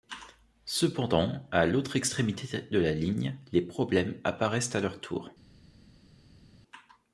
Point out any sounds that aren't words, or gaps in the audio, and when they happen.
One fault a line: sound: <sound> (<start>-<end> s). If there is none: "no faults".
no faults